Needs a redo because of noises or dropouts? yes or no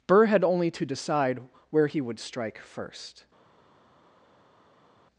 no